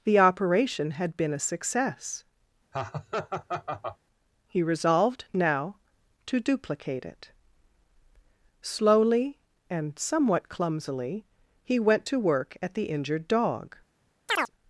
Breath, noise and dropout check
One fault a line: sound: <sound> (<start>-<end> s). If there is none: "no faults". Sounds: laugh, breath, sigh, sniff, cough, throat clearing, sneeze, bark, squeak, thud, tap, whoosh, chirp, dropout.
sound: laugh (2.7-4.0 s)
sound: chirp (14.3-14.5 s)